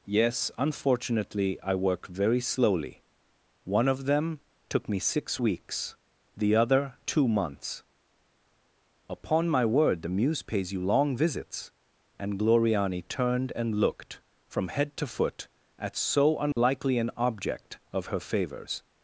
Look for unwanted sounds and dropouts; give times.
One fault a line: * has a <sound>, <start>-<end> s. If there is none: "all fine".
* has a dropout, 16.5-16.6 s